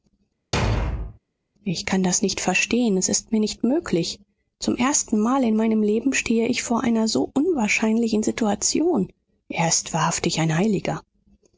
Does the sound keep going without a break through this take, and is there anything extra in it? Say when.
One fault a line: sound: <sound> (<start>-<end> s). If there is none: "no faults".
sound: thud (0.5-1.2 s)